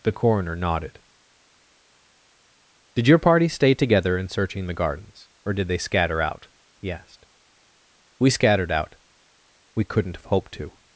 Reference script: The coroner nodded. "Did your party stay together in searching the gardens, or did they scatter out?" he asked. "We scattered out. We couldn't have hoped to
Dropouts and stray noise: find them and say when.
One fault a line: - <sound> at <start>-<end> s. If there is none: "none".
none